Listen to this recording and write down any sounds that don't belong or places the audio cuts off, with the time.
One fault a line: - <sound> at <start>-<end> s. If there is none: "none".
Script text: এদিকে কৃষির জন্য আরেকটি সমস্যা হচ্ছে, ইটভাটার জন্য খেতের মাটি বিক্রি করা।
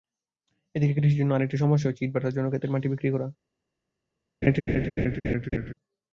- laugh at 4.4-5.7 s